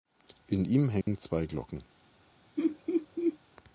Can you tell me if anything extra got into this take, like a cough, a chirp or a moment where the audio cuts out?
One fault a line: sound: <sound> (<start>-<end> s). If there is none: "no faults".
sound: dropout (1.0-1.1 s)
sound: laugh (2.6-3.4 s)